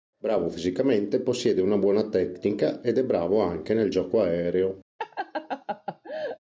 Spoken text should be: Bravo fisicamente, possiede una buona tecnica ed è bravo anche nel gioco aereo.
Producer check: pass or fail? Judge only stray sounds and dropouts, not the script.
fail